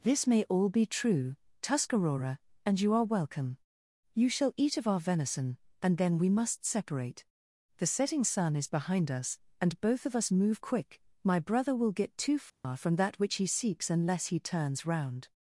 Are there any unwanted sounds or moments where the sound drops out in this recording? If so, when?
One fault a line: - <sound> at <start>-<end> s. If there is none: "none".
- dropout at 12.5-12.6 s